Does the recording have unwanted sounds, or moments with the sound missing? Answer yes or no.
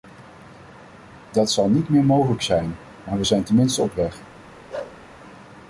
yes